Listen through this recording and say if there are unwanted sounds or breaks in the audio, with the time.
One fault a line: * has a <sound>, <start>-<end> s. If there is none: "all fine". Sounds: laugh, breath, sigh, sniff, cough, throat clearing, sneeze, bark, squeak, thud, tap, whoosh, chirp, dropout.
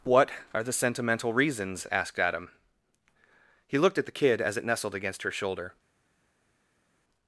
all fine